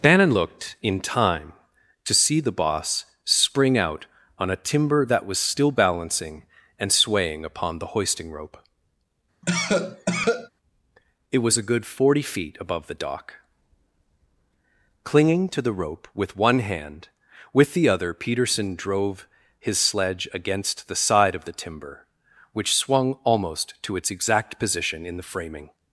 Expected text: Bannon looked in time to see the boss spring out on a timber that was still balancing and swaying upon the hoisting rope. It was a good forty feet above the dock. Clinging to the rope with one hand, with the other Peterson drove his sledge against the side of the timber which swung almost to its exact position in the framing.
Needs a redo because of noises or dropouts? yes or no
yes